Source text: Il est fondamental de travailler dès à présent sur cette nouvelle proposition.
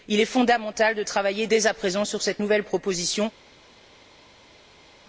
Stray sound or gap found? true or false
false